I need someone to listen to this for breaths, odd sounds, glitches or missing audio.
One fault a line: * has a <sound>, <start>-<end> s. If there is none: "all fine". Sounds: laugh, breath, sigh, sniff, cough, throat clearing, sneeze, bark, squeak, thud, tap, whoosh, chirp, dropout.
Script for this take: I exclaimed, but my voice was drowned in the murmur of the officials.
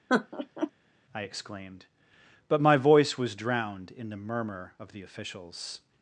* has a laugh, 0.1-0.7 s